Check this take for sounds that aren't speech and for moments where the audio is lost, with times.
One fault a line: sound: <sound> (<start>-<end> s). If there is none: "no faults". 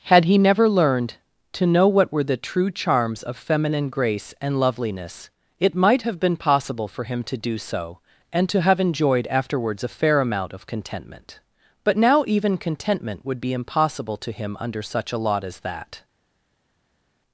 no faults